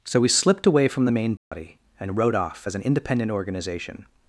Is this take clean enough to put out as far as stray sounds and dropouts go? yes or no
no